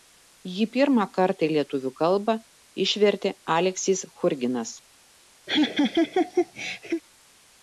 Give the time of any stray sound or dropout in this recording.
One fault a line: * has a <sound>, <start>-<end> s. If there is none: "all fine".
* has a laugh, 5.5-7.0 s